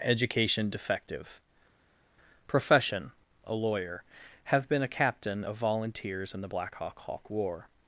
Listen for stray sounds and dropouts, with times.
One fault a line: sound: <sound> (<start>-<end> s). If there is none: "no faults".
no faults